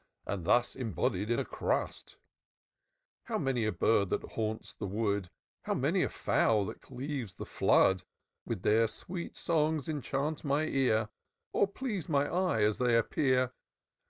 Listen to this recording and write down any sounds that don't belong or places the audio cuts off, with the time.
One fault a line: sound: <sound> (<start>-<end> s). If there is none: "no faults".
no faults